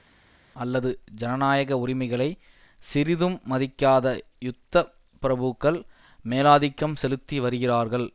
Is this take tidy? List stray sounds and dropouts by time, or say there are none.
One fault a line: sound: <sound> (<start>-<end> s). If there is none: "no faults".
no faults